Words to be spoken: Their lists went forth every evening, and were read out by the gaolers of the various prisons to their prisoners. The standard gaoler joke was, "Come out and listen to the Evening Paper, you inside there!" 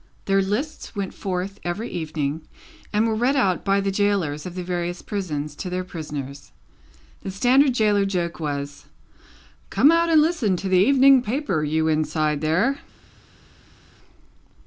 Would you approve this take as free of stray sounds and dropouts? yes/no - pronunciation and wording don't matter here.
yes